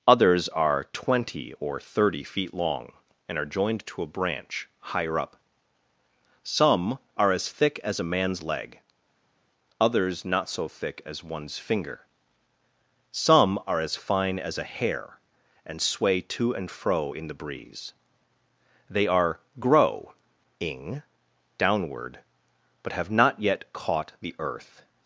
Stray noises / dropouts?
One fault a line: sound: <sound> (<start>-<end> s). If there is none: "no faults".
no faults